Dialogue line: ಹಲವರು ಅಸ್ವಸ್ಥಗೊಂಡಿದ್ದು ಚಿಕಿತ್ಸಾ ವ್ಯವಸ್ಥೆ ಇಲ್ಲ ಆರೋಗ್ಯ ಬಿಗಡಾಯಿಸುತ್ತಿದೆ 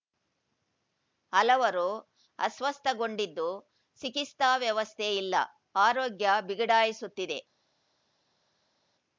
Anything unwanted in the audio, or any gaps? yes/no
no